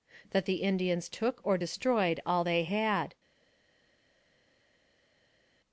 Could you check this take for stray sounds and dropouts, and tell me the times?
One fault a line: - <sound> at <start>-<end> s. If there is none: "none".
none